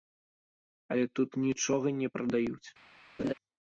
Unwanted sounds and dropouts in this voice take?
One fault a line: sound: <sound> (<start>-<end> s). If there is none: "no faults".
sound: laugh (3.2-3.3 s)